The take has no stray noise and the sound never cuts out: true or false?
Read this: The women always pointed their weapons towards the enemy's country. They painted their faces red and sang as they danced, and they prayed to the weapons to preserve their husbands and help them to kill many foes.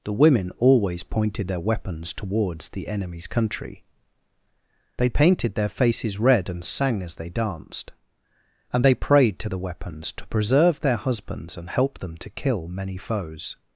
true